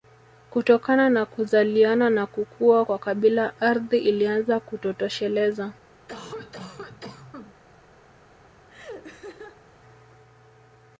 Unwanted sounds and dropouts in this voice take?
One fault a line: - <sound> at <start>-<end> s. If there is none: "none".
- cough at 6.1-7.5 s
- laugh at 8.7-9.7 s